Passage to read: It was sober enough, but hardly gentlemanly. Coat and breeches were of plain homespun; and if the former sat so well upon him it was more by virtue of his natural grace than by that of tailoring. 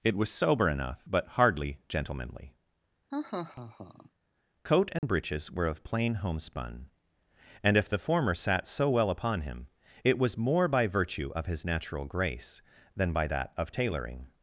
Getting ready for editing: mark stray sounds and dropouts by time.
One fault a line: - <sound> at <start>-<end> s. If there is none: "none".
- laugh at 3.1-4.1 s
- dropout at 5.0-5.0 s